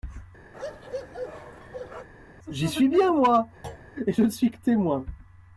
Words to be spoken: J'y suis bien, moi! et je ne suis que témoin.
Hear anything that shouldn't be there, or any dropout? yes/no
yes